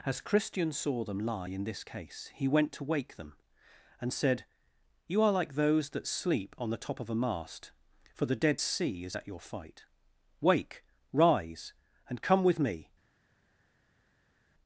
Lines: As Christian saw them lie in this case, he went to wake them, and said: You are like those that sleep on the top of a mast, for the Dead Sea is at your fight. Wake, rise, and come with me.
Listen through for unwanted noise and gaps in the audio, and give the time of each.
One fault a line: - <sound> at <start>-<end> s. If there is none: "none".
none